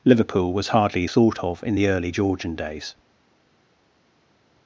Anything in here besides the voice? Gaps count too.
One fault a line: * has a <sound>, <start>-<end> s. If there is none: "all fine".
all fine